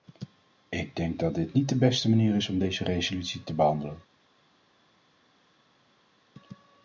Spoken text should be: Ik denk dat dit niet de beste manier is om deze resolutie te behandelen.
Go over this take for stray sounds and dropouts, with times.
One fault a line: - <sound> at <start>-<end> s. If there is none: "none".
none